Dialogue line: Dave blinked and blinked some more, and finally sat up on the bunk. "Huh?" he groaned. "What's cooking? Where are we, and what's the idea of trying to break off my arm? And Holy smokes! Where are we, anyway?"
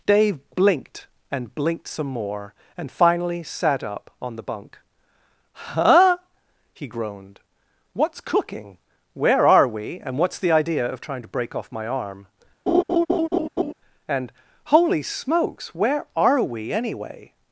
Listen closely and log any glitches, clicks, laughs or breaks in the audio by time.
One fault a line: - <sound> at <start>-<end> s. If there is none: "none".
- laugh at 12.7-13.7 s